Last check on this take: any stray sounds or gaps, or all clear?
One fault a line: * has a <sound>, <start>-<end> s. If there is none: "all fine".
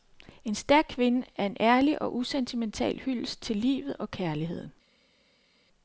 all fine